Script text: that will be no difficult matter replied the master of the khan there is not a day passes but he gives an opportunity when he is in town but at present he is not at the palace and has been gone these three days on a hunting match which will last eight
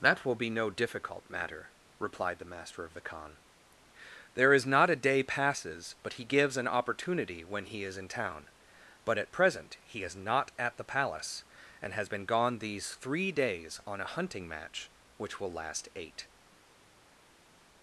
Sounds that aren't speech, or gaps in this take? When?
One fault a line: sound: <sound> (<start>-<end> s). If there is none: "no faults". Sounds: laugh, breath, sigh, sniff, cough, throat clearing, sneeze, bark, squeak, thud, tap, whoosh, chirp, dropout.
no faults